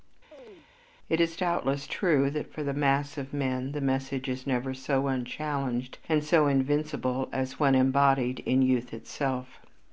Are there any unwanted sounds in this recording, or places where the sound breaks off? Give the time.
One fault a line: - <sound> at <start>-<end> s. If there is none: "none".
- chirp at 0.3-0.7 s